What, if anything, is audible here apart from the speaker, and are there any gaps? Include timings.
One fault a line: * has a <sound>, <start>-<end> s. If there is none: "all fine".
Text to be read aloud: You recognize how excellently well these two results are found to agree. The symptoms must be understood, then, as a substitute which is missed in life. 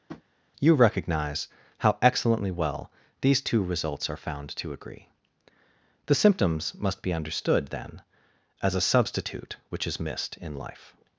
* has a tap, 0.1-0.2 s